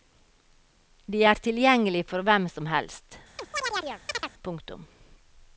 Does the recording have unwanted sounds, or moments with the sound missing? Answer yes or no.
yes